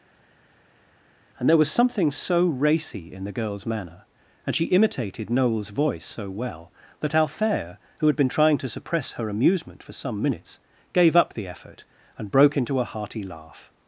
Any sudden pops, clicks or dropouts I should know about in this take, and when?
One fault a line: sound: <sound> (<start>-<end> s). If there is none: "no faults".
no faults